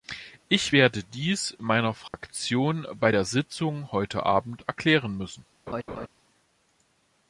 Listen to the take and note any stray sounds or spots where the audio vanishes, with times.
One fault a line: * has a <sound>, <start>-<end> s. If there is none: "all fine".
* has a dropout, 2.1-2.1 s
* has a laugh, 5.7-6.1 s